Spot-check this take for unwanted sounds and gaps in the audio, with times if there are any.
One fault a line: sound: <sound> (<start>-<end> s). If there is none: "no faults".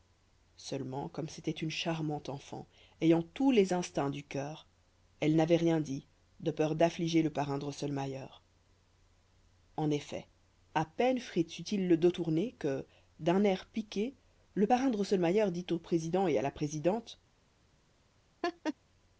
sound: laugh (18.4-18.7 s)